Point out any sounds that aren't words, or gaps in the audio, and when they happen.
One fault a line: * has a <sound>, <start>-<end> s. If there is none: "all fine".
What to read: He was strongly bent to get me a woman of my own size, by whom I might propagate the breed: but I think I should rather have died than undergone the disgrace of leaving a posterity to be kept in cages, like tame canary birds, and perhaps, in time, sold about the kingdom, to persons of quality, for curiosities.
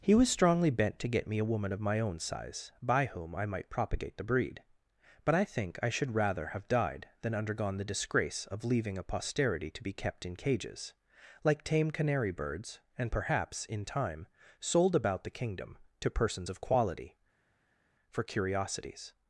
all fine